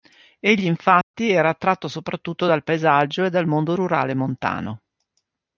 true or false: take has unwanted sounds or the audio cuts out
true